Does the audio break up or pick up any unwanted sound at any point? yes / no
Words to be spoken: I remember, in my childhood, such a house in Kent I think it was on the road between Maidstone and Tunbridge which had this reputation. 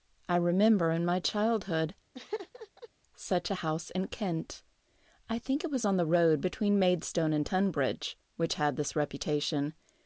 yes